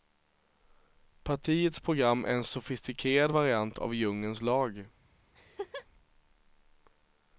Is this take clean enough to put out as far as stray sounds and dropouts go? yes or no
no